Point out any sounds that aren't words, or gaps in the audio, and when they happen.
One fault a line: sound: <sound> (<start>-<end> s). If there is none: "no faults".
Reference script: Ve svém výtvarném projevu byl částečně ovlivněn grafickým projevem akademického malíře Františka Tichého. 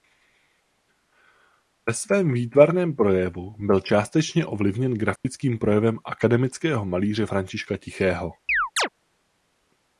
sound: dropout (5.2-5.2 s)
sound: chirp (8.5-8.9 s)